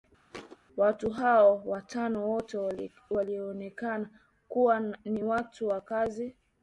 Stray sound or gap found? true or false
true